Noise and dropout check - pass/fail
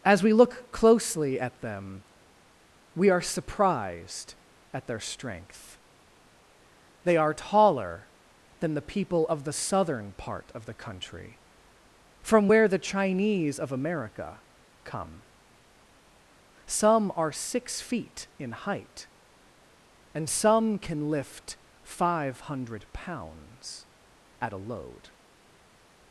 pass